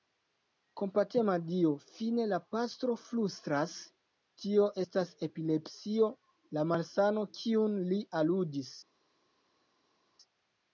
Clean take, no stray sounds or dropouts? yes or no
yes